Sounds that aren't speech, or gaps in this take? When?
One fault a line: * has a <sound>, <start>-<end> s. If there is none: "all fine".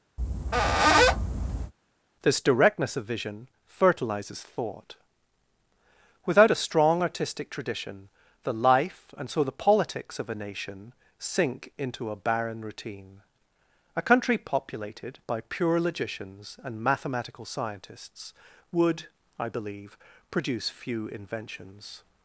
* has a squeak, 0.2-1.7 s